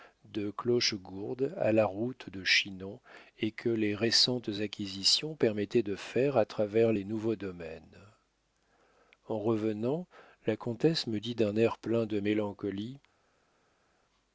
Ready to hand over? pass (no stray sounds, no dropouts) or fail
pass